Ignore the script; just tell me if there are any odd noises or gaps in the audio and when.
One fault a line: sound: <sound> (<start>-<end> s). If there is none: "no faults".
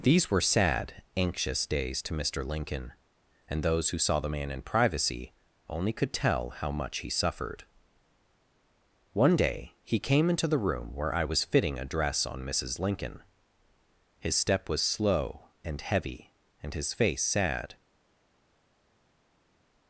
no faults